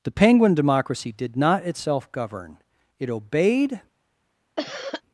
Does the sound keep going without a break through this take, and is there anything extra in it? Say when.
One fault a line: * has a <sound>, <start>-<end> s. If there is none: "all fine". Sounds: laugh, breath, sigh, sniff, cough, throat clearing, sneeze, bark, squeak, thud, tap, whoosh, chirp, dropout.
* has a cough, 4.6-5.0 s